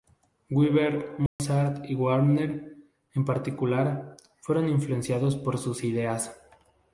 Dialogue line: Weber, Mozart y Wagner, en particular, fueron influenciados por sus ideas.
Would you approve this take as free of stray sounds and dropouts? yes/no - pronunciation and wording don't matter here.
no